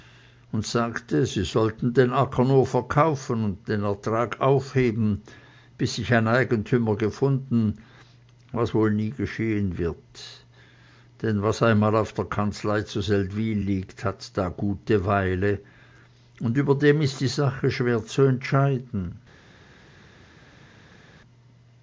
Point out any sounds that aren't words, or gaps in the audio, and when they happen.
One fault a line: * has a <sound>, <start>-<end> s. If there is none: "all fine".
all fine